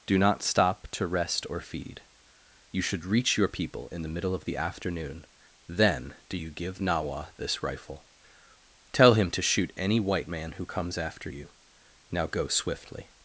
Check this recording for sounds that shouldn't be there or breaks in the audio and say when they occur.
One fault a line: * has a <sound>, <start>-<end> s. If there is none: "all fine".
all fine